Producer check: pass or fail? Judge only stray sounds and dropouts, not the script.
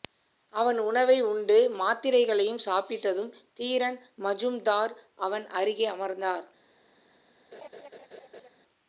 fail